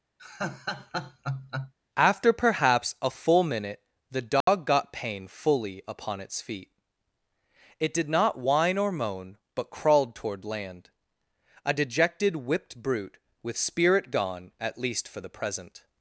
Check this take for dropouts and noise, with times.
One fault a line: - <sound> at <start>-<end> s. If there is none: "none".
- laugh at 0.2-1.7 s
- dropout at 4.4-4.5 s